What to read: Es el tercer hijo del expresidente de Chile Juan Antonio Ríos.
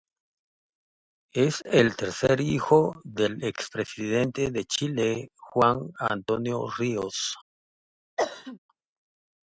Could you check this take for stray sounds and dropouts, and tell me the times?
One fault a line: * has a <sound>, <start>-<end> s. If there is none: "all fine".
* has a cough, 8.2-8.6 s